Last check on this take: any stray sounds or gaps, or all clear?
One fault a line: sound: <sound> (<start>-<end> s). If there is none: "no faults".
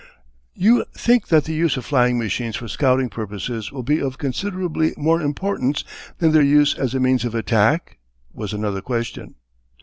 no faults